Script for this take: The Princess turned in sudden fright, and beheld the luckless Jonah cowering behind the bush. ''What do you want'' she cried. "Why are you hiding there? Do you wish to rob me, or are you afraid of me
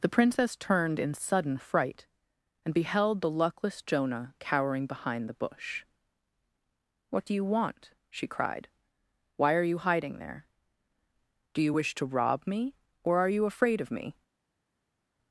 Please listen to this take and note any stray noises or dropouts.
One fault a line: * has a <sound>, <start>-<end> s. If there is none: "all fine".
all fine